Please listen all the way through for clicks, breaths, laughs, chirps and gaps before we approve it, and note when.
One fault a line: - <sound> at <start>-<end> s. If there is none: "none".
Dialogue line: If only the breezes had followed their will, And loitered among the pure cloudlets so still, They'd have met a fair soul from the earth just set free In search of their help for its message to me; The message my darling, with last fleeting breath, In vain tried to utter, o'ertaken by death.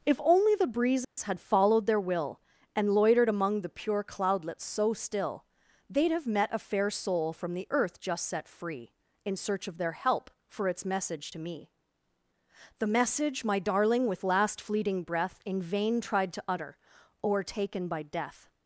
- dropout at 1.0-1.2 s